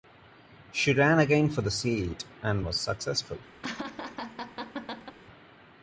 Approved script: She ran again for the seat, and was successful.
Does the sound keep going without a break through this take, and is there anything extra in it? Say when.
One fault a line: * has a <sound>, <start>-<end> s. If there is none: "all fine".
* has a laugh, 3.6-5.2 s